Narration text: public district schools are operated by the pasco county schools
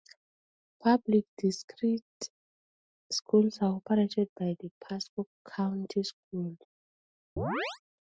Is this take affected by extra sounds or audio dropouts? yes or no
yes